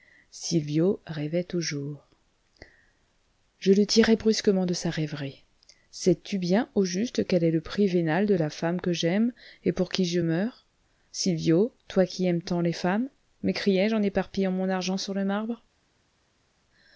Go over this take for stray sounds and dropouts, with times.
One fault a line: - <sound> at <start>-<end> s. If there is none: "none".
none